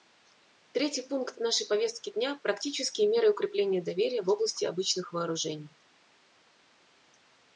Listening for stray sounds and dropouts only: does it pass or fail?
pass